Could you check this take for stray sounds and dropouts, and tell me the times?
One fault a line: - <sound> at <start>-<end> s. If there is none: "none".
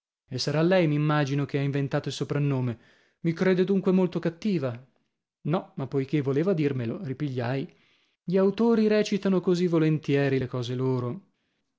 none